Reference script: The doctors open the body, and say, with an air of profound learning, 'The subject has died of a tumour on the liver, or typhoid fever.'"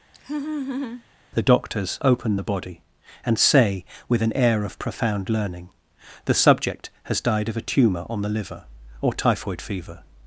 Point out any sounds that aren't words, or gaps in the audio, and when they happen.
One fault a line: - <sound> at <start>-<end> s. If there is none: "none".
- laugh at 0.1-1.0 s